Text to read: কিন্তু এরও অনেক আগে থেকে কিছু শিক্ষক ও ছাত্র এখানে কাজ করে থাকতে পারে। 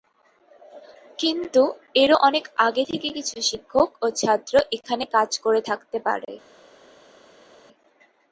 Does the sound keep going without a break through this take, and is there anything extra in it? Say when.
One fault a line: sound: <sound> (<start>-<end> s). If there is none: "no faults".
no faults